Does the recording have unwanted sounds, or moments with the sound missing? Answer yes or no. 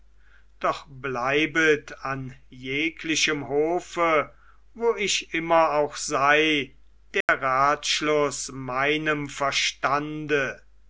yes